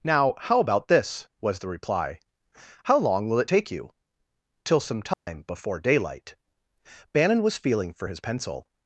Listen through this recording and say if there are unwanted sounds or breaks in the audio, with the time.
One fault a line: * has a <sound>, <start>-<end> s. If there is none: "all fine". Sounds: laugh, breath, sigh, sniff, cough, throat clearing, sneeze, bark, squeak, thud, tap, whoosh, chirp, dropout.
* has a dropout, 5.1-5.3 s